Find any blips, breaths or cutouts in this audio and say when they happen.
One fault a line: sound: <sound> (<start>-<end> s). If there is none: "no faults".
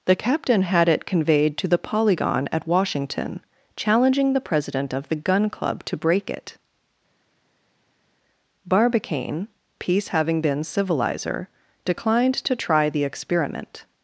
no faults